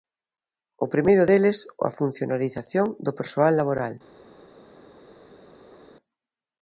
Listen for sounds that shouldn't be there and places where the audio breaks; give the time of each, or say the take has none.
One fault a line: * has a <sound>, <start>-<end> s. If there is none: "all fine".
all fine